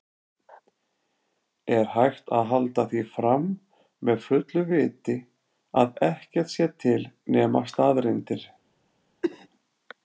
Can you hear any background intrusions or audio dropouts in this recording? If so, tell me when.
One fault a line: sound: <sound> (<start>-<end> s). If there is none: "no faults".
sound: cough (9.2-9.5 s)